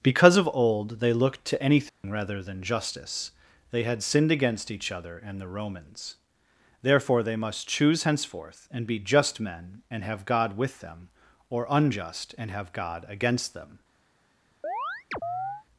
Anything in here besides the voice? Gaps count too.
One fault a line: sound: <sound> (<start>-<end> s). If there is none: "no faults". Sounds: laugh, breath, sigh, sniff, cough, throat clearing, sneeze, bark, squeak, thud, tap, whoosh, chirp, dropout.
sound: dropout (1.9-2.0 s)
sound: chirp (14.6-15.6 s)